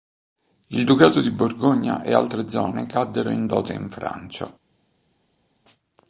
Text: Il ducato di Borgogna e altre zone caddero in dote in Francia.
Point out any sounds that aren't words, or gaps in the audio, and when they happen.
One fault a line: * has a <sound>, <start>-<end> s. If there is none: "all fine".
all fine